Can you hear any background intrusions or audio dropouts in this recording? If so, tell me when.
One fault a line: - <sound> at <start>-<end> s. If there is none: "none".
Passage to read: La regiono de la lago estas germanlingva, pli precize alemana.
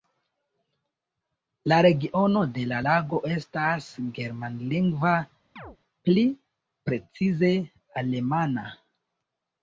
- chirp at 5.6-5.8 s